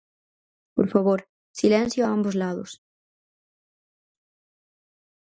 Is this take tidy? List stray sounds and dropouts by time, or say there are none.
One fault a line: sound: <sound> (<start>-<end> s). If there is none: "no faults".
no faults